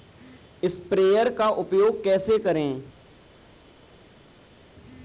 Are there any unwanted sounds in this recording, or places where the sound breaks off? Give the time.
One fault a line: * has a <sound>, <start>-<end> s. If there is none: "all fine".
all fine